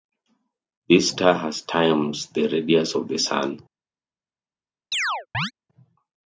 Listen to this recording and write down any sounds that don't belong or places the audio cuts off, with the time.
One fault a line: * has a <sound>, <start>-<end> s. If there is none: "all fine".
* has a chirp, 4.9-5.5 s